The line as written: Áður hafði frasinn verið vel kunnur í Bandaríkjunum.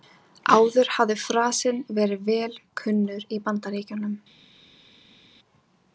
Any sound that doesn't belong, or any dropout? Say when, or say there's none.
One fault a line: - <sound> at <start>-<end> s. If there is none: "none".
none